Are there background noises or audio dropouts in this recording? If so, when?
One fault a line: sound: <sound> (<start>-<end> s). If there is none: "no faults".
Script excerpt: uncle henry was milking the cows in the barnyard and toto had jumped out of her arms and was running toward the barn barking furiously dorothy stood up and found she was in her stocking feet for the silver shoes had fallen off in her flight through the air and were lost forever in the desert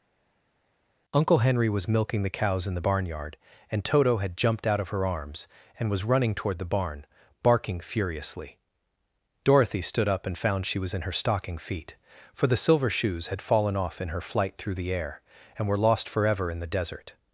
no faults